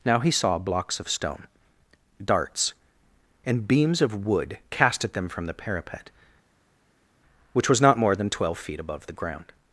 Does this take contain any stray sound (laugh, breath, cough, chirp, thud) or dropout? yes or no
no